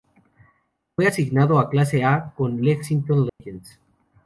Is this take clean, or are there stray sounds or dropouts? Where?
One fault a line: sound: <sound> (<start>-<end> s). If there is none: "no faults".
sound: dropout (3.3-3.4 s)